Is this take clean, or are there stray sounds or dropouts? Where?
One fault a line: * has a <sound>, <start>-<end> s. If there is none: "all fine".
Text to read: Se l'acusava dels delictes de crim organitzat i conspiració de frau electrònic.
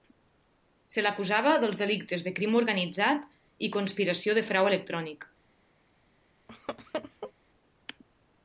* has a laugh, 6.5-7.3 s